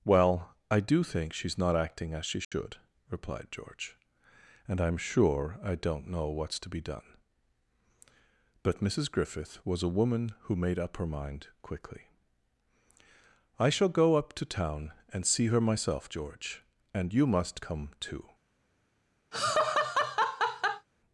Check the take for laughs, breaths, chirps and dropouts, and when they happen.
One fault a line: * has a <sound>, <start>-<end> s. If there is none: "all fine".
* has a dropout, 2.4-2.5 s
* has a laugh, 19.3-20.9 s